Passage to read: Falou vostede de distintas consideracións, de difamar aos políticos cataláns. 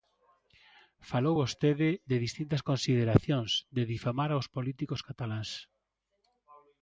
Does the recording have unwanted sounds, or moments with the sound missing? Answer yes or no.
no